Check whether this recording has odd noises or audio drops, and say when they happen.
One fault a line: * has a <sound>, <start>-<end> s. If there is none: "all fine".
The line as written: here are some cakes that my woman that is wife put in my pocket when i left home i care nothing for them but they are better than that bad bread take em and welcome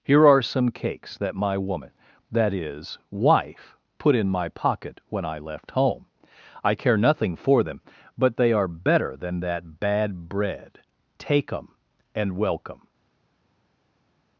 all fine